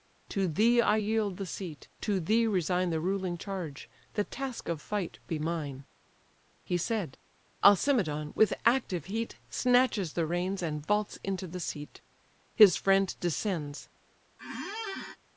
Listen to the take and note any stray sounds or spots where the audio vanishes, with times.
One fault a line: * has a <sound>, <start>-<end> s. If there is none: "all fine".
* has a squeak, 14.4-15.2 s